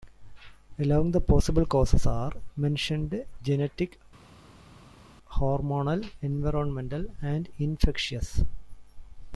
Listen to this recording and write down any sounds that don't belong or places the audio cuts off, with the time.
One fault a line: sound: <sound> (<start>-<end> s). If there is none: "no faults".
no faults